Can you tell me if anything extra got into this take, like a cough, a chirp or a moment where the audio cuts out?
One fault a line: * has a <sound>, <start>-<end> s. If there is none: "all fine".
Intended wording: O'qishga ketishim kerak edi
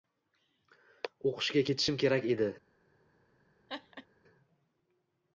* has a laugh, 3.7-4.1 s